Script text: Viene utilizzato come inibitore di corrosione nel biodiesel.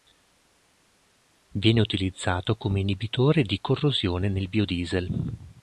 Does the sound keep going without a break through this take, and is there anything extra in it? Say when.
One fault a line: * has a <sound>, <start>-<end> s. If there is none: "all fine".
all fine